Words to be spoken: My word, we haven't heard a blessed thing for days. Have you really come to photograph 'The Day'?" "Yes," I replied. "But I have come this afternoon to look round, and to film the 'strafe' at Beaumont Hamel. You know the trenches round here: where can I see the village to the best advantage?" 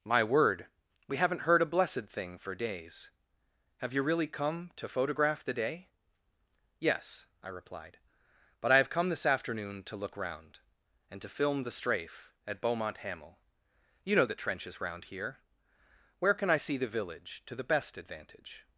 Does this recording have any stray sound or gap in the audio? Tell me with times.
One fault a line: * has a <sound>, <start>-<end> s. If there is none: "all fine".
all fine